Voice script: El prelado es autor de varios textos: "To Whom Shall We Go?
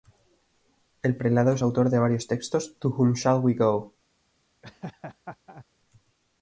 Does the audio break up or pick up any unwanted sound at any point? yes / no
yes